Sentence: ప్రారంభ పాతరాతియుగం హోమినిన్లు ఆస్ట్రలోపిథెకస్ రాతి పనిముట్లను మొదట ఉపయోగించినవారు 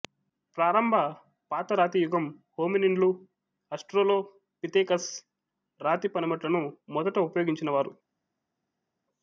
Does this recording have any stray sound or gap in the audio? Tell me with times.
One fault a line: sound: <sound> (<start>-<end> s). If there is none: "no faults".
no faults